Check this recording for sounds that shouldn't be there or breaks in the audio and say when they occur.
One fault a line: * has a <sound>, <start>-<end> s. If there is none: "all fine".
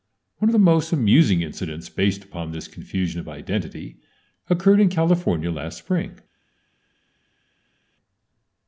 all fine